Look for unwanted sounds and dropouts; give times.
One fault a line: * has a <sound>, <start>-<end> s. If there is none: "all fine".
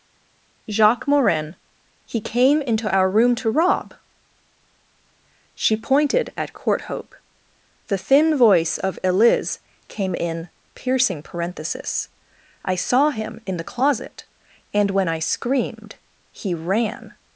all fine